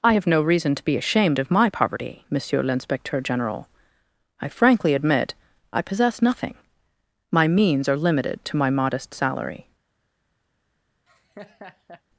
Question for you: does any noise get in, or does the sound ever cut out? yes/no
yes